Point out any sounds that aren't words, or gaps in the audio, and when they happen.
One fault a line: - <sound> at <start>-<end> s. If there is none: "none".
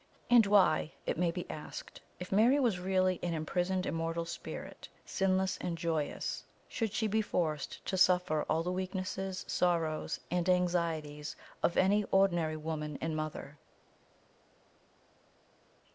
none